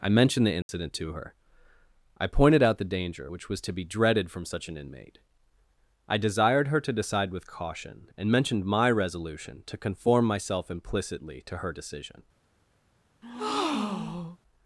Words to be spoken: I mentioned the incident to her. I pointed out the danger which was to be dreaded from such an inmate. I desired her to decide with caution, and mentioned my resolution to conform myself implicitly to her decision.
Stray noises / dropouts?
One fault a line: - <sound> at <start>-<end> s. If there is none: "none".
- dropout at 0.6-0.7 s
- breath at 13.2-14.4 s